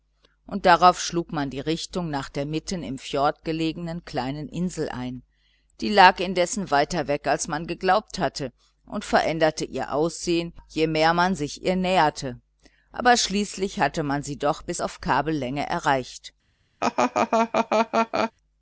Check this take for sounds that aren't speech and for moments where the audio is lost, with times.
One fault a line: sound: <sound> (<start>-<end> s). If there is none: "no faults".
sound: laugh (16.8-18.3 s)